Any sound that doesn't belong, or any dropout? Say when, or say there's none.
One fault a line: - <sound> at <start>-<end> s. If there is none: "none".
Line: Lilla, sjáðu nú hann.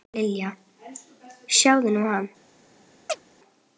- chirp at 3.1-3.2 s